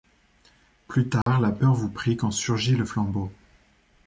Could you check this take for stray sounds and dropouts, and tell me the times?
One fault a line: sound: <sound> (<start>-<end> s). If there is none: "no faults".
sound: dropout (1.2-1.3 s)